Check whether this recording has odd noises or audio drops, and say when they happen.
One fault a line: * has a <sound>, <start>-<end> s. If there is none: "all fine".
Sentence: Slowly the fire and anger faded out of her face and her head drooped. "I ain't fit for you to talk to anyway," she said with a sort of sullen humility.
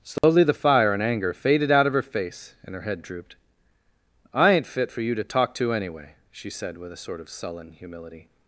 * has a dropout, 0.2-0.2 s